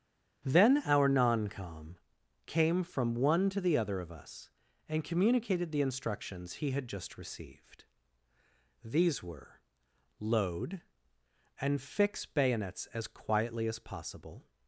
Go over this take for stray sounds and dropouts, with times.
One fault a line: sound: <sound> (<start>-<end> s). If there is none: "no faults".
no faults